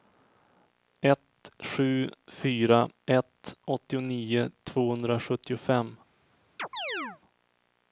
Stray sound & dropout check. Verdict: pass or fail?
fail